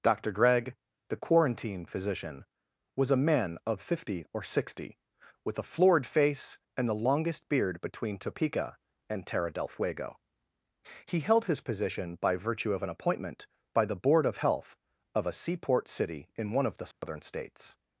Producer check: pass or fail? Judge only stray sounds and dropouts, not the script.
fail